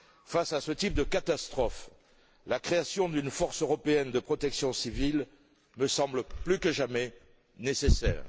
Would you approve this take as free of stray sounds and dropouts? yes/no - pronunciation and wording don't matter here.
yes